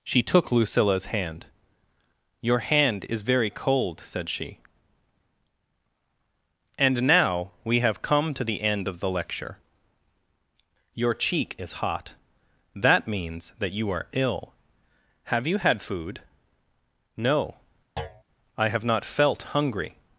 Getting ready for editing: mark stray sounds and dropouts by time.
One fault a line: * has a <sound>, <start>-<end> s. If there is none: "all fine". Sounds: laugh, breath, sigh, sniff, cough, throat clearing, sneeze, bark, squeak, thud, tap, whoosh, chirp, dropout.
* has a thud, 18.0-18.2 s